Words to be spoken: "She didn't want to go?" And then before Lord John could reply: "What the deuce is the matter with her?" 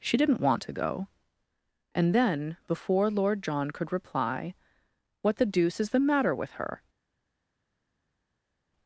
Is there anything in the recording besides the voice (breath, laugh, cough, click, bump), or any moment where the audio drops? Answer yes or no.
no